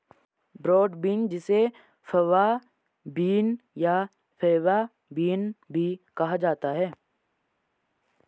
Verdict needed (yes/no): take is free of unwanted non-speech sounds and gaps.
yes